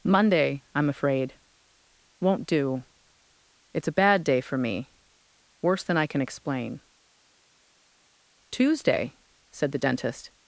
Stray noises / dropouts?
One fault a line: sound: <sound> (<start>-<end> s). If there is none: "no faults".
no faults